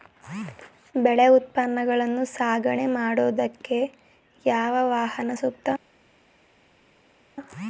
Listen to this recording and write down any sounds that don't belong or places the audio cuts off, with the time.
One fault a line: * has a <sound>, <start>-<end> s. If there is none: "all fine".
all fine